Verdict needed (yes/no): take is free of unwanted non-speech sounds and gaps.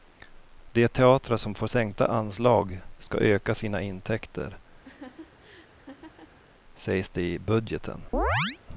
no